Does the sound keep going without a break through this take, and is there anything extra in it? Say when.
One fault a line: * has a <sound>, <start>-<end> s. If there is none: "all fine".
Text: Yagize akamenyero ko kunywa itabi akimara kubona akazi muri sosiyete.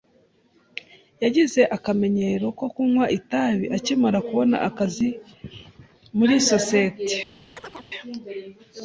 * has a chirp, 7.6-7.9 s